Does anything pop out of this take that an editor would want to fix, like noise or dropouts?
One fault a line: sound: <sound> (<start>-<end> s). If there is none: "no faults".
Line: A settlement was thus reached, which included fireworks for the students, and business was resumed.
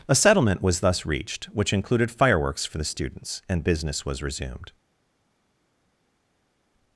no faults